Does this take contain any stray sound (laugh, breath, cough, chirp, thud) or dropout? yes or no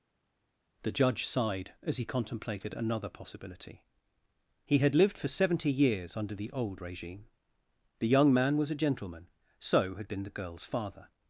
no